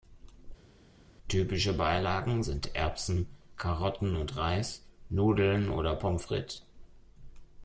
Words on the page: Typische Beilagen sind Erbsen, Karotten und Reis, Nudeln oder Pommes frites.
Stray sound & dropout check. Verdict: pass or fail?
pass